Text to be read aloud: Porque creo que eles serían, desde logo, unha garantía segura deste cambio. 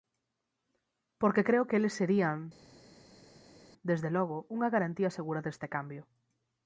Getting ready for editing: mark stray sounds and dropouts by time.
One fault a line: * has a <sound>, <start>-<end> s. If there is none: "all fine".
all fine